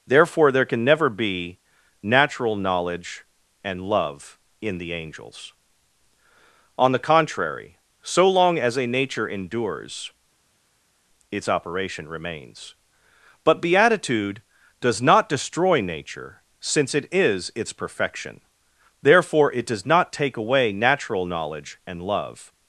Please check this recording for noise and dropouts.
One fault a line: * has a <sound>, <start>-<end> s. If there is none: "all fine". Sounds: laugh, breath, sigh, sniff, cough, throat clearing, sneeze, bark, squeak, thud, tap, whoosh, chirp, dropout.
all fine